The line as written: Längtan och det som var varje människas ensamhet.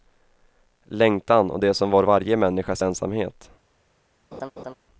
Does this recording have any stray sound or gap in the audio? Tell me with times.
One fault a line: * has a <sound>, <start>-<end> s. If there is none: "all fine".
* has a laugh, 4.3-4.7 s